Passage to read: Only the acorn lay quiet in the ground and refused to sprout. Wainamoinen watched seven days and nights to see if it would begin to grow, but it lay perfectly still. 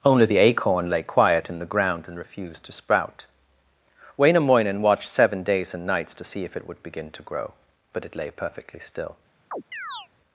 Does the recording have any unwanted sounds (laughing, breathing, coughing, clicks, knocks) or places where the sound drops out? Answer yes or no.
yes